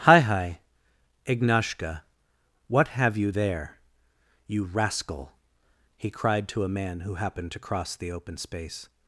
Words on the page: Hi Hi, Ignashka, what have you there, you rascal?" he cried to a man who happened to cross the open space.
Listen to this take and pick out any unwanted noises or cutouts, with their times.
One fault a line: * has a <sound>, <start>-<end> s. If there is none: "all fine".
all fine